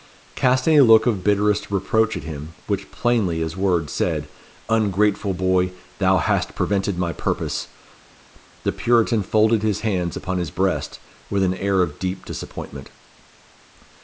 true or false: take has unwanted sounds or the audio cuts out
false